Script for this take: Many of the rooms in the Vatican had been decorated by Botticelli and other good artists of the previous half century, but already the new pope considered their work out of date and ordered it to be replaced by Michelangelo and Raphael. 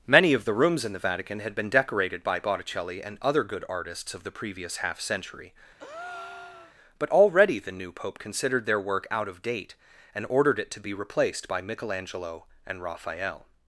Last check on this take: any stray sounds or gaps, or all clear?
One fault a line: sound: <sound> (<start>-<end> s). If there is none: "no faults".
sound: breath (5.8-6.7 s)